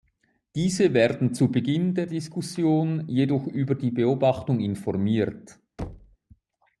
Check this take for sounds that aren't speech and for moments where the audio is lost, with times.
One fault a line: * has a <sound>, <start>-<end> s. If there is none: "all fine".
* has a thud, 5.8-6.2 s